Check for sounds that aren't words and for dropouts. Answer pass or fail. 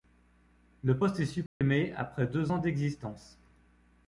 fail